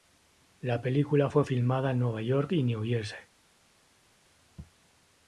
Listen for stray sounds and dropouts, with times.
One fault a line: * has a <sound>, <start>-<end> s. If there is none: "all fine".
all fine